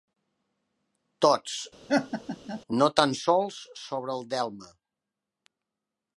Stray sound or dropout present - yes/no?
yes